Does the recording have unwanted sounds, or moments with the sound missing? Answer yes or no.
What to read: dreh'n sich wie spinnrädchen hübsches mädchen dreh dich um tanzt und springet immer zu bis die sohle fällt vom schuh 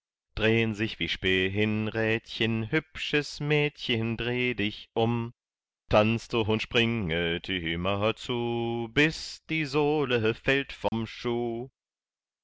yes